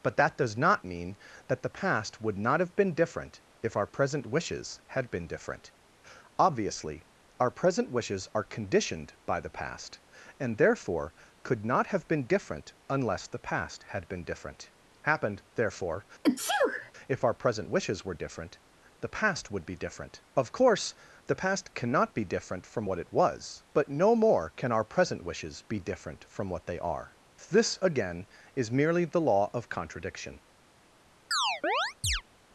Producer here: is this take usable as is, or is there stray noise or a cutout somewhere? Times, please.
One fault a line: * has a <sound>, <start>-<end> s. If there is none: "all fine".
* has a sneeze, 16.2-16.9 s
* has a chirp, 31.3-32.2 s